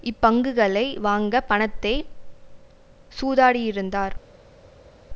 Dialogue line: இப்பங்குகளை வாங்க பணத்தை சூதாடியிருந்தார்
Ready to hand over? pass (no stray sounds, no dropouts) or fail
pass